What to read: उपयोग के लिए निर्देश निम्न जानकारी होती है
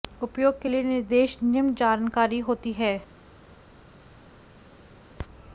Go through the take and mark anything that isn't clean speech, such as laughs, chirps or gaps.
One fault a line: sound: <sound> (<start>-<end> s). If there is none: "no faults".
no faults